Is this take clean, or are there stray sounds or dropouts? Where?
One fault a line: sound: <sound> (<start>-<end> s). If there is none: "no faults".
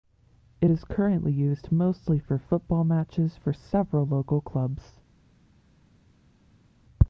no faults